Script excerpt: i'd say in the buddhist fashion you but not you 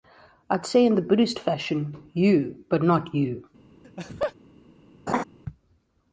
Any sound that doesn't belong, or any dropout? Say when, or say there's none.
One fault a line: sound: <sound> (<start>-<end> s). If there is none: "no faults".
sound: laugh (3.8-4.3 s)
sound: laugh (5.1-5.2 s)